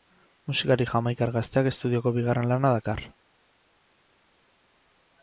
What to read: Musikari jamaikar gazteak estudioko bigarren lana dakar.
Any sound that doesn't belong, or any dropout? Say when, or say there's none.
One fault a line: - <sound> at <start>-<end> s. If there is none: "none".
none